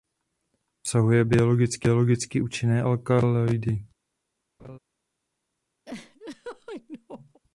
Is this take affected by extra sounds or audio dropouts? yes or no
yes